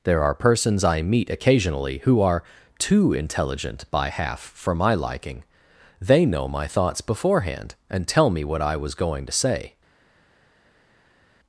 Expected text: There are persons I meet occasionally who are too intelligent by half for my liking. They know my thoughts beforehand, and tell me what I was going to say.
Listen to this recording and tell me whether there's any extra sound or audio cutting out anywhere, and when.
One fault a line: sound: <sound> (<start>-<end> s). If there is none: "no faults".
no faults